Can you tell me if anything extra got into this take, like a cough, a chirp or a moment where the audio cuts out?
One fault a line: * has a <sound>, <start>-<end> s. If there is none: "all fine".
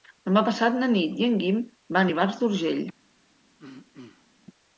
* has a throat clearing, 3.6-4.3 s